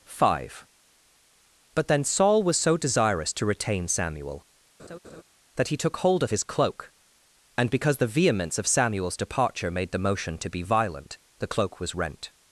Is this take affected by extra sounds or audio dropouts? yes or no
yes